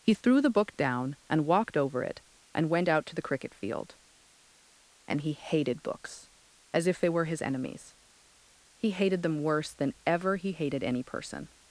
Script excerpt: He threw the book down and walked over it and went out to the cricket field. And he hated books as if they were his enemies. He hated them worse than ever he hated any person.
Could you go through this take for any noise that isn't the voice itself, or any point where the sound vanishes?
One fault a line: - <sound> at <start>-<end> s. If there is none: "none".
none